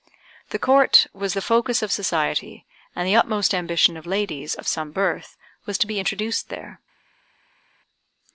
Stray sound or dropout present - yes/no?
no